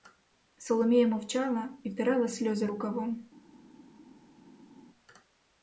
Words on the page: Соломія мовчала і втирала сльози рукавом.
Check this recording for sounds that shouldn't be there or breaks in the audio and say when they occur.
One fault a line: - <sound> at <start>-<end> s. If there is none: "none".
none